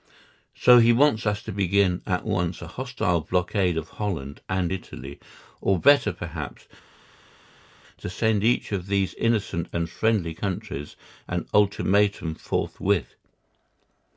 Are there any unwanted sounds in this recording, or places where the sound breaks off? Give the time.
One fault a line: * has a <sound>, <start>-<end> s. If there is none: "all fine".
all fine